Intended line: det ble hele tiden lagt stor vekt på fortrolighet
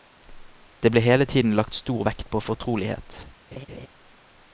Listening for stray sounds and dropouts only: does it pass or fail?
fail